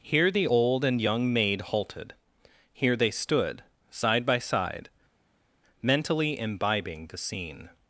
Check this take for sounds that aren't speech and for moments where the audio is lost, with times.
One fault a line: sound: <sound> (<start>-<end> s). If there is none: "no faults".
no faults